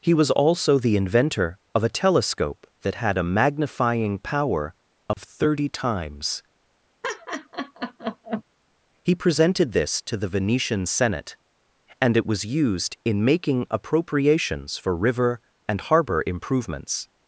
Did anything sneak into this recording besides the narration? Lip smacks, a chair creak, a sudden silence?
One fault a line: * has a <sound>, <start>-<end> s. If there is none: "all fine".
* has a dropout, 5.1-5.2 s
* has a laugh, 7.0-8.4 s